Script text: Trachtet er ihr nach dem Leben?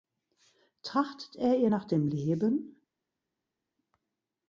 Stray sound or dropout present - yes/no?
no